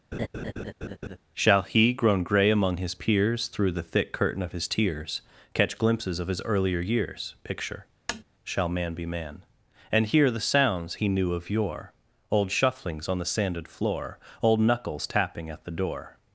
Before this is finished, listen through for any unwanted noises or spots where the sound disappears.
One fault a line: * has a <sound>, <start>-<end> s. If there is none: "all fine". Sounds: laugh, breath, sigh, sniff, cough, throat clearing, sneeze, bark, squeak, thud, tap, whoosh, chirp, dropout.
* has a laugh, 0.1-1.2 s
* has a tap, 8.1-8.2 s